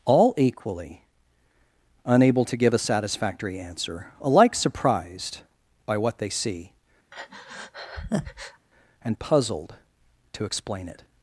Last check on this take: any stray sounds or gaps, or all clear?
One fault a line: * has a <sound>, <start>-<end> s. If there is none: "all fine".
* has a breath, 7.1-8.7 s